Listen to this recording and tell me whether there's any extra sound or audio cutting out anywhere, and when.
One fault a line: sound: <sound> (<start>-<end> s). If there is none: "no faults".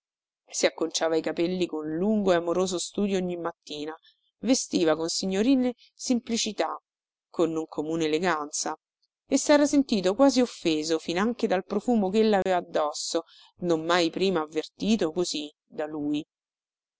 sound: dropout (12.4-12.5 s)